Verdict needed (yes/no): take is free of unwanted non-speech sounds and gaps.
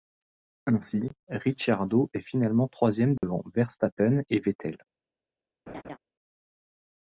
no